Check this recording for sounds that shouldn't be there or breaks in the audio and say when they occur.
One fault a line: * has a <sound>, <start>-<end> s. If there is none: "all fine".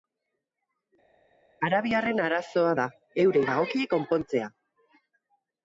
all fine